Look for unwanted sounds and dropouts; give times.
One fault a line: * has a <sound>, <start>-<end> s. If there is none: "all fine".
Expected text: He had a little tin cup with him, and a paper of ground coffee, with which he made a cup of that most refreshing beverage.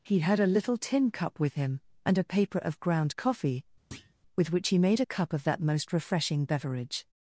* has a thud, 3.9-4.1 s